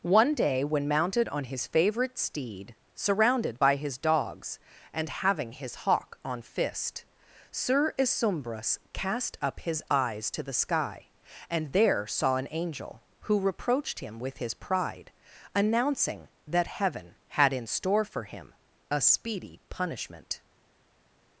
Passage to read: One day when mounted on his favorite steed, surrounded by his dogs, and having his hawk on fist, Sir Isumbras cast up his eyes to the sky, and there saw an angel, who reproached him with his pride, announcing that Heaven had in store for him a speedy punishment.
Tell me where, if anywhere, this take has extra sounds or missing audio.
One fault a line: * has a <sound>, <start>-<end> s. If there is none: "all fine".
all fine